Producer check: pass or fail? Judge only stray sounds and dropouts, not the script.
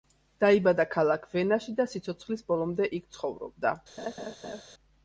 fail